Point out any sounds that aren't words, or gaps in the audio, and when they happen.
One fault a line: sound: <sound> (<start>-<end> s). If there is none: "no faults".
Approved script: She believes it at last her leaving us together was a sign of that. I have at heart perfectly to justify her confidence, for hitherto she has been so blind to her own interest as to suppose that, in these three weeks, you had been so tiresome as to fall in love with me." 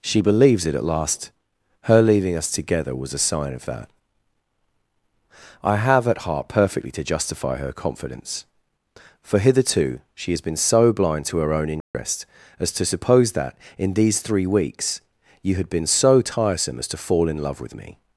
sound: dropout (11.8-11.9 s)